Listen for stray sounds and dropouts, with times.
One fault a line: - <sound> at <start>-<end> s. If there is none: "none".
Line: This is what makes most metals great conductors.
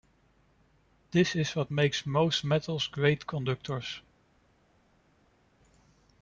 none